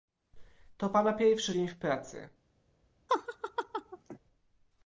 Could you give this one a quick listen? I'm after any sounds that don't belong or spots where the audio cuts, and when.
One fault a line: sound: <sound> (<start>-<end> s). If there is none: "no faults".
sound: laugh (3.1-4.2 s)